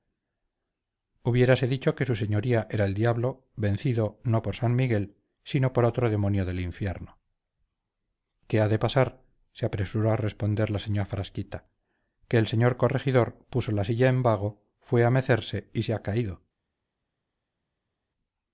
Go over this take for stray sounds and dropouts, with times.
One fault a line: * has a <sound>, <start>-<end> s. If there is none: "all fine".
all fine